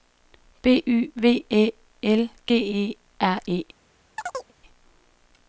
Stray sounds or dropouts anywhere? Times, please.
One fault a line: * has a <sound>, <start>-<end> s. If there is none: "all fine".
* has a chirp, 4.2-4.5 s